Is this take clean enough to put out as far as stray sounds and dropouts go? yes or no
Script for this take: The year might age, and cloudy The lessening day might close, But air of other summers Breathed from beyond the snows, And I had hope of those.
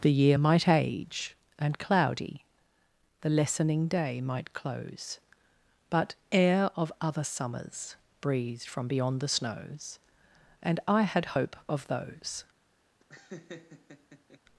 no